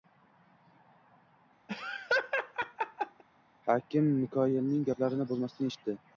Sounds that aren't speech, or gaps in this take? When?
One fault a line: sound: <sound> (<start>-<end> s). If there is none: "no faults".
sound: laugh (1.7-3.2 s)